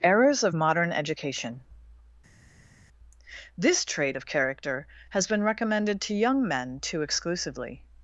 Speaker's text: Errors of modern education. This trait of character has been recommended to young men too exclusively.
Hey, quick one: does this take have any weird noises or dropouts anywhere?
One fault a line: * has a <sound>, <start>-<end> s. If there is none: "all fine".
all fine